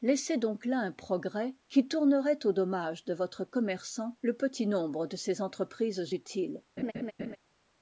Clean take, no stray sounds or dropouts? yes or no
no